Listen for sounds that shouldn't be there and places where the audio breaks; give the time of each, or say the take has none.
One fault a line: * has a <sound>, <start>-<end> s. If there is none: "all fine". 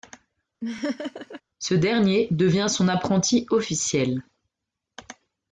* has a laugh, 0.6-1.4 s